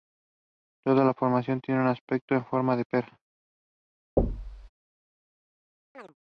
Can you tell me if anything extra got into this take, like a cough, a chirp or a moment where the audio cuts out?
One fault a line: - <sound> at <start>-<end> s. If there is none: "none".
- thud at 4.2-4.7 s
- chirp at 5.9-6.1 s